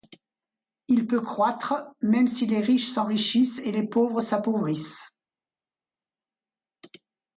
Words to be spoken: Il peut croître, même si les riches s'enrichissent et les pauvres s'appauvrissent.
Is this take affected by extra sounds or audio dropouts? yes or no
no